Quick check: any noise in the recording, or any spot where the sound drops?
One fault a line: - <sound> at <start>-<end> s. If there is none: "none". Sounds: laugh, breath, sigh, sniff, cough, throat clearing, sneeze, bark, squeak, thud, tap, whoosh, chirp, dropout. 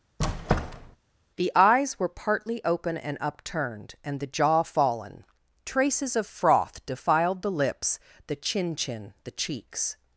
- squeak at 0.2-1.0 s